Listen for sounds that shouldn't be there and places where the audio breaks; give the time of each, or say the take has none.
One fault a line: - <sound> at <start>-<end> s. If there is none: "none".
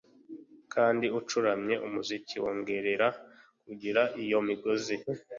none